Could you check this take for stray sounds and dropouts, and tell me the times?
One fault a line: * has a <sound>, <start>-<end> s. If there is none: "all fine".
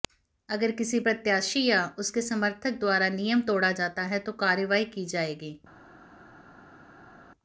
all fine